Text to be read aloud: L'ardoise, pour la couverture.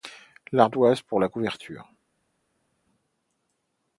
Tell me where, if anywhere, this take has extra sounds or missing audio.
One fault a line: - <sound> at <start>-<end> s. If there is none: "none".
none